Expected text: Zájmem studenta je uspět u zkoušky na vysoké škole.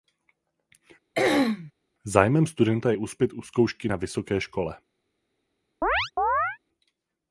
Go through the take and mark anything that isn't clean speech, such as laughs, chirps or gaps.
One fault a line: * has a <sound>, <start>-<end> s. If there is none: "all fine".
* has a throat clearing, 1.1-1.7 s
* has a chirp, 5.8-6.6 s